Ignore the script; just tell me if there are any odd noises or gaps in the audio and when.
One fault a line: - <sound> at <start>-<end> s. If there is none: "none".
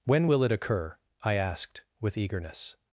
none